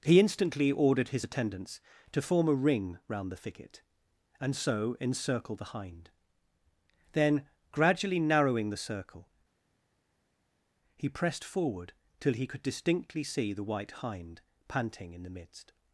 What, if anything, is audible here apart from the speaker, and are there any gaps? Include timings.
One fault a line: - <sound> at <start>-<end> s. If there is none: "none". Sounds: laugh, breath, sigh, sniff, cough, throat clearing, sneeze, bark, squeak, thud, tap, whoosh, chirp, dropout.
none